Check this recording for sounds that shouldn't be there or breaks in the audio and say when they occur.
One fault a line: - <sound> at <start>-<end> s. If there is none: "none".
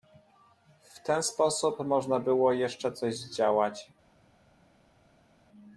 none